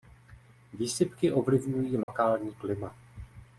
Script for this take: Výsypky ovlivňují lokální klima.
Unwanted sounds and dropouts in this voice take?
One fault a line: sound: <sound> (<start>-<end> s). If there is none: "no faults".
sound: dropout (2.0-2.1 s)